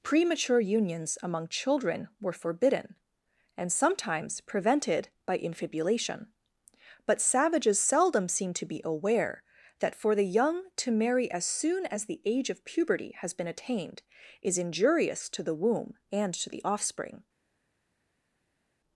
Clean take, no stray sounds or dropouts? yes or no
yes